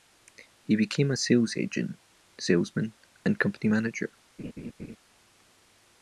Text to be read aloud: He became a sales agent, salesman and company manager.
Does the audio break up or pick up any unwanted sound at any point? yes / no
yes